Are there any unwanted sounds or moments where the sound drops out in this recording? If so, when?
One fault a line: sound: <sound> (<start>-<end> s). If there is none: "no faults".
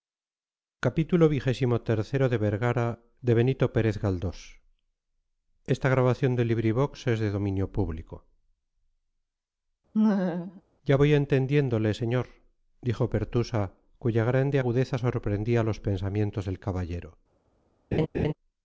sound: laugh (9.9-10.6 s)
sound: laugh (17.9-18.3 s)